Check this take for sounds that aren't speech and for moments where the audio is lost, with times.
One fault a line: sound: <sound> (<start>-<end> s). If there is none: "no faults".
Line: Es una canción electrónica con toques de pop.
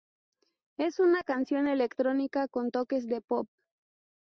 no faults